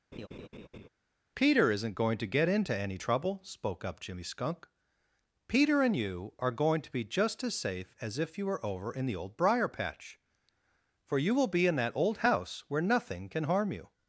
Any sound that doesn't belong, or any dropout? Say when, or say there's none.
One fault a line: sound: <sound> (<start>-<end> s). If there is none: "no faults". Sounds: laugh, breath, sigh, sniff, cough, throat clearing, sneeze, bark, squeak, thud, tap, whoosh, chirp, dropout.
sound: laugh (0.1-0.9 s)